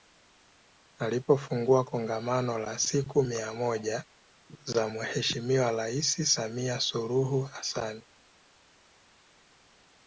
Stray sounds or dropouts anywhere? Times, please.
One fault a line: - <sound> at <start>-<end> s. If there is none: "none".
none